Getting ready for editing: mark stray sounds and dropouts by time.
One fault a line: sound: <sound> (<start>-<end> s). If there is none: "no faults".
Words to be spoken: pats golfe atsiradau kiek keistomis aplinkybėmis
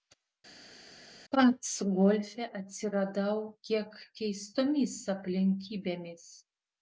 no faults